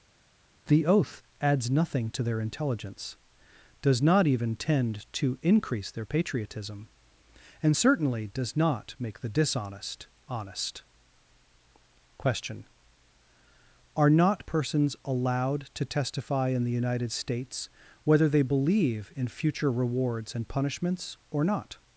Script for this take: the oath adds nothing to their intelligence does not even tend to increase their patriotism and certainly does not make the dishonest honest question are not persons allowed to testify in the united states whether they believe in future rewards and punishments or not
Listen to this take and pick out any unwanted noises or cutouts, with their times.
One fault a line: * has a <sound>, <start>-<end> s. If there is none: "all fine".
all fine